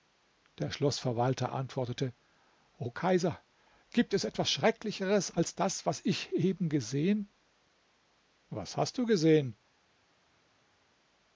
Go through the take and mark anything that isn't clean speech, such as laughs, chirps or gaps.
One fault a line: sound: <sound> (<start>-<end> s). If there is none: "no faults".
no faults